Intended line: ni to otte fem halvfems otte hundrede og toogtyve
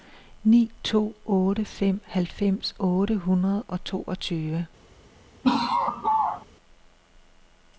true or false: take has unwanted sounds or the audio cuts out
true